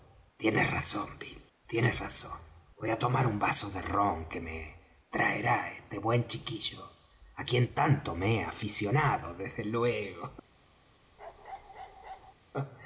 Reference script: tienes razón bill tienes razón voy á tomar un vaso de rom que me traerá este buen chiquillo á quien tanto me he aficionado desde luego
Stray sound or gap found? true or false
true